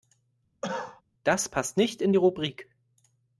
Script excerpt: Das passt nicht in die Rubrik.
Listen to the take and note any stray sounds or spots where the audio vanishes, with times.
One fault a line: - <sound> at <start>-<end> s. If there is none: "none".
- cough at 0.6-1.0 s